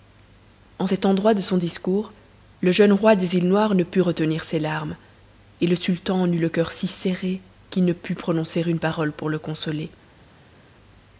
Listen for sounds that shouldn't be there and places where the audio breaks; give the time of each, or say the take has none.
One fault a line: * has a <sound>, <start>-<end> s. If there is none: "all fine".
all fine